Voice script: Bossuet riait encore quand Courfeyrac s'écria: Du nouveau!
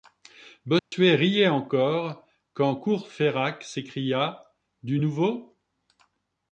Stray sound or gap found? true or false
true